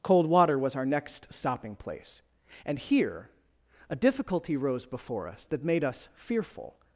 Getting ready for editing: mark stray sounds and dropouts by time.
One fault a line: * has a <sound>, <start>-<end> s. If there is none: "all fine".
all fine